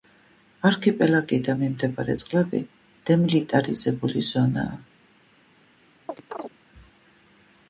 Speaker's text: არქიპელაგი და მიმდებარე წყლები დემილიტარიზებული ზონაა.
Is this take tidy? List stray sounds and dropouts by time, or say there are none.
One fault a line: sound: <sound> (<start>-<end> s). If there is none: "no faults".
sound: chirp (6.1-6.5 s)